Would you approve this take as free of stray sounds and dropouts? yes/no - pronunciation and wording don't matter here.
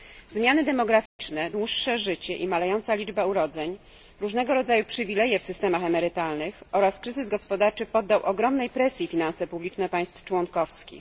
no